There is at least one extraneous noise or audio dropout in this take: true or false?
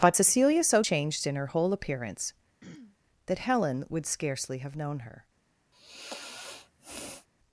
true